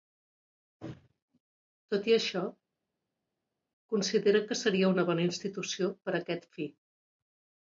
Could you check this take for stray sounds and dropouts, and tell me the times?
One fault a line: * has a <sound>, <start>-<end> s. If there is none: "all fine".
all fine